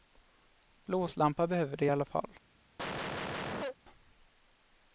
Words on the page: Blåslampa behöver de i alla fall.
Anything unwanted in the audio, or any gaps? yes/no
yes